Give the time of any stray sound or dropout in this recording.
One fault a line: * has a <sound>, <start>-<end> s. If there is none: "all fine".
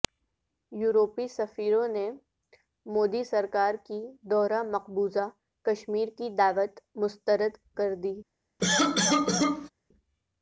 * has a cough, 8.6-9.7 s